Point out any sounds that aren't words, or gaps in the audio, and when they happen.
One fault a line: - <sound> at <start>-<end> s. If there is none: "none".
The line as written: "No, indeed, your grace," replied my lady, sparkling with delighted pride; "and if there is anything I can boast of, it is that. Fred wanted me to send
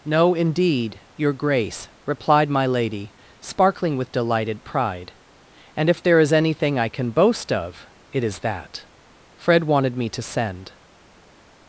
none